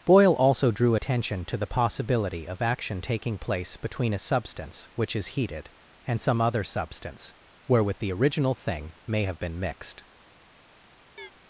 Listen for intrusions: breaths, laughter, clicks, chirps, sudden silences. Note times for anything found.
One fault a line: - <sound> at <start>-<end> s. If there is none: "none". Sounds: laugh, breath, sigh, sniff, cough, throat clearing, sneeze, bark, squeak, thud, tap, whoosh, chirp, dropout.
- chirp at 11.2-11.3 s